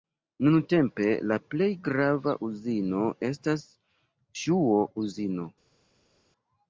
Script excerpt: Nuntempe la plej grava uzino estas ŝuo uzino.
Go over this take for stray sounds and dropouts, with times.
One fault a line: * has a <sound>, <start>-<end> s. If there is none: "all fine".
all fine